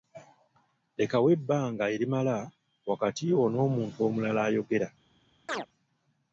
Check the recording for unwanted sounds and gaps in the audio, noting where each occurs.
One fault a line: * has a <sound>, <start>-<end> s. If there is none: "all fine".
* has a chirp, 5.5-5.7 s